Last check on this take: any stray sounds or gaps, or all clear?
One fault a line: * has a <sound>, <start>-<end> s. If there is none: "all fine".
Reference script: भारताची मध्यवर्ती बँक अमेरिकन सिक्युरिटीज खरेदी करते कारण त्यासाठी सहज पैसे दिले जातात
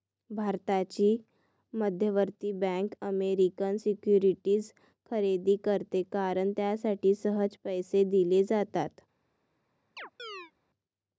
* has a chirp, 10.0-10.5 s